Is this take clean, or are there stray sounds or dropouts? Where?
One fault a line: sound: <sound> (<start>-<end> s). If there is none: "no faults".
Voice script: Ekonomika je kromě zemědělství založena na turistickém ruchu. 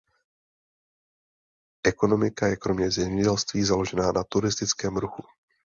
no faults